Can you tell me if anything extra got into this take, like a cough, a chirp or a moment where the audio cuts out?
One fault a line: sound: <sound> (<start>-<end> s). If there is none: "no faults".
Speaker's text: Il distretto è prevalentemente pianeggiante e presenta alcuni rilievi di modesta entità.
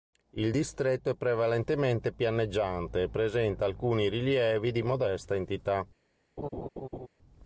sound: laugh (6.4-7.1 s)